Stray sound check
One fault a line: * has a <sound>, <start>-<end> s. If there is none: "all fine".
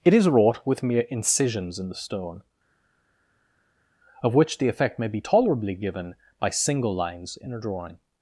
all fine